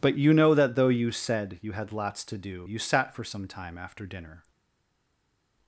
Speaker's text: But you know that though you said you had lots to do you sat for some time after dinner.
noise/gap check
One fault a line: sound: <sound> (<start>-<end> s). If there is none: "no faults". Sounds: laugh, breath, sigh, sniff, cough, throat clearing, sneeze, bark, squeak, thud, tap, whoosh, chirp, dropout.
no faults